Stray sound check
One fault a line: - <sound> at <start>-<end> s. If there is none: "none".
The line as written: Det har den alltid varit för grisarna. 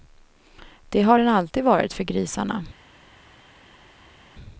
none